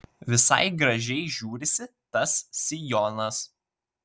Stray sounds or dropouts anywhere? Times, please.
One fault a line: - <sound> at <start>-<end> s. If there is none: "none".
none